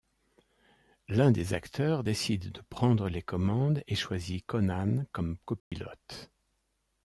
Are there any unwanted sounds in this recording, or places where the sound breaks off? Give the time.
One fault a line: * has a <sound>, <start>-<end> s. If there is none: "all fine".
* has a dropout, 5.6-5.7 s